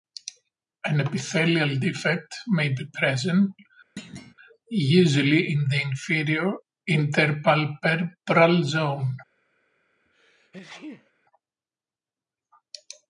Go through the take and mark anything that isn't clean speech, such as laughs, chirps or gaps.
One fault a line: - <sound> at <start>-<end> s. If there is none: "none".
- thud at 4.0-4.3 s
- sneeze at 10.0-11.1 s